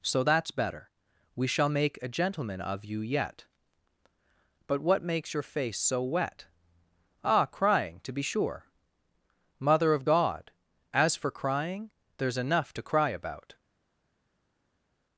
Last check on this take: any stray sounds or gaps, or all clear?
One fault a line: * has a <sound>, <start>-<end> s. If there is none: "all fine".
all fine